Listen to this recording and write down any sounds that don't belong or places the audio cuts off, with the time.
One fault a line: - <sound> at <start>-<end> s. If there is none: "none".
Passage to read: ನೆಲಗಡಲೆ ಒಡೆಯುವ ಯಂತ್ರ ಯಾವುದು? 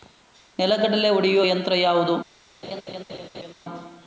- laugh at 2.6-3.5 s